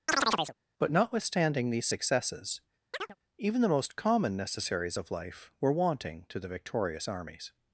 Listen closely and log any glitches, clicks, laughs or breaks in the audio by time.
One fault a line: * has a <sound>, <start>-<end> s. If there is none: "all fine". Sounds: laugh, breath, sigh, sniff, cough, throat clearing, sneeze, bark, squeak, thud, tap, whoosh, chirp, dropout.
* has a chirp, 0.1-0.6 s
* has a chirp, 2.9-3.2 s